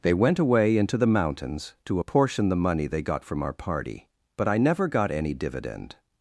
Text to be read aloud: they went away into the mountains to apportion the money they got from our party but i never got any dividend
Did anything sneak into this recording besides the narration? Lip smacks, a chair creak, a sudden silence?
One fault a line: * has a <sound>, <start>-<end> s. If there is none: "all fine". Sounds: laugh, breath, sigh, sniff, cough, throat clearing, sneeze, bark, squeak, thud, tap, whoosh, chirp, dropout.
all fine